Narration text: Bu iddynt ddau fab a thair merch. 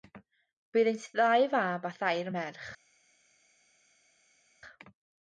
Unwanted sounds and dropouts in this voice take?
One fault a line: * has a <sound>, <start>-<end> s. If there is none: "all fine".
all fine